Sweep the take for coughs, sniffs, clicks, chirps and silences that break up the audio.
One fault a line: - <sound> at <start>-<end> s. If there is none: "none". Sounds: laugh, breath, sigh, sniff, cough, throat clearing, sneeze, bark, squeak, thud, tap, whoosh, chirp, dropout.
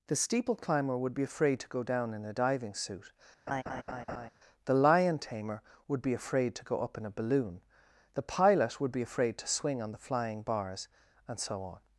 - laugh at 3.5-4.3 s